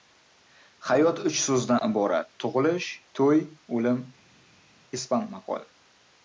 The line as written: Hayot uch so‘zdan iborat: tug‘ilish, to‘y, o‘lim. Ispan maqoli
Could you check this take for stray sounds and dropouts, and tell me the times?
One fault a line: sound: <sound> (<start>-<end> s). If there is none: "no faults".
no faults